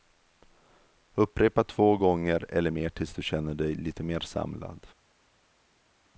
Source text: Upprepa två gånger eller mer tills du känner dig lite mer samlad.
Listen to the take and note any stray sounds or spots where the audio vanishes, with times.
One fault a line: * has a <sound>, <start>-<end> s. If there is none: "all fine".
all fine